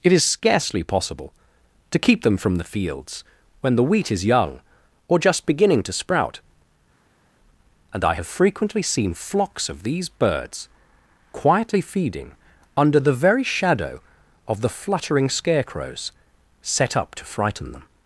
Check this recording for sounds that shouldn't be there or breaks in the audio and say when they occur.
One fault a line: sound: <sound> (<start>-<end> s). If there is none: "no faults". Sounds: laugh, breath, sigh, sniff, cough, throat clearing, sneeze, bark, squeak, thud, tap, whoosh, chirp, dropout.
no faults